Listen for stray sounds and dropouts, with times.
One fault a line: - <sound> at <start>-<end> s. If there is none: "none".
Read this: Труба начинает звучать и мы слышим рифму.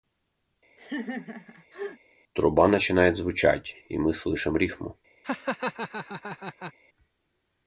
- laugh at 0.8-2.0 s
- laugh at 5.2-6.7 s